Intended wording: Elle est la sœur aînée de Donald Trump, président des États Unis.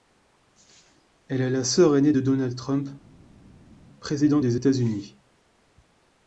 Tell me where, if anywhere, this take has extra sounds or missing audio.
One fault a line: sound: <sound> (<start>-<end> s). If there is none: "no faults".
no faults